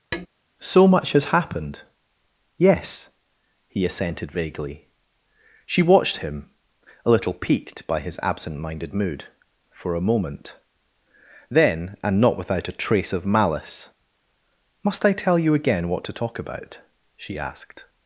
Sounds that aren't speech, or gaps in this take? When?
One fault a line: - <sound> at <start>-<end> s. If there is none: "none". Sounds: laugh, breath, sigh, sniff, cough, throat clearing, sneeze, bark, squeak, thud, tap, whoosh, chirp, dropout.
- tap at 0.1-0.3 s